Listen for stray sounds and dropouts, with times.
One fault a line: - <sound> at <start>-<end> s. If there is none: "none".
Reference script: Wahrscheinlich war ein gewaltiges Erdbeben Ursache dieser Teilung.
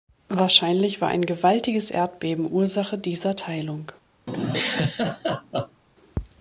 - laugh at 4.3-5.8 s